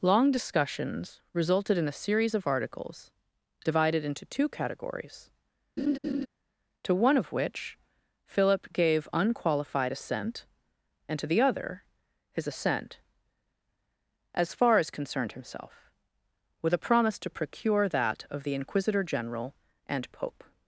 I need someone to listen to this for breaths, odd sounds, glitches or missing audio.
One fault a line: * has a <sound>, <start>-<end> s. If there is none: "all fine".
* has a laugh, 5.8-6.3 s